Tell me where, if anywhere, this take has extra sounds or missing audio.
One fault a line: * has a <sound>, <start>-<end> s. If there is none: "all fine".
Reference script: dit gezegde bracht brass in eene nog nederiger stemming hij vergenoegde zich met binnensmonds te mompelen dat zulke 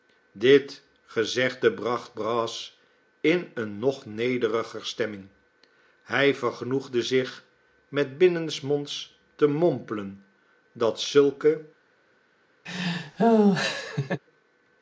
* has a laugh, 12.7-14.2 s